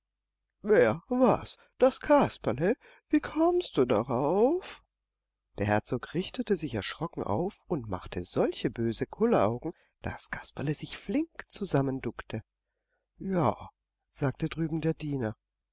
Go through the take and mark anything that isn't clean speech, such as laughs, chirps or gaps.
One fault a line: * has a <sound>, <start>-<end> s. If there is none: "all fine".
all fine